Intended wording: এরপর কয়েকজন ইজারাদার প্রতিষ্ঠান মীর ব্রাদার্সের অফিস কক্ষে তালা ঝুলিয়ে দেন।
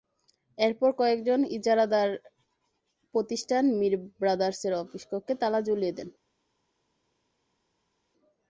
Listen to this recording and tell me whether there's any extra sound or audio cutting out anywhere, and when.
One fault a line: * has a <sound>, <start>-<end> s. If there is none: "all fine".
all fine